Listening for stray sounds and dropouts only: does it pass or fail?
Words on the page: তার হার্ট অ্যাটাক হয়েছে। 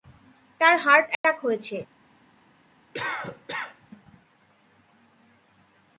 fail